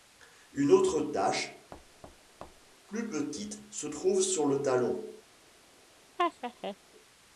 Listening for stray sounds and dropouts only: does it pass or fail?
fail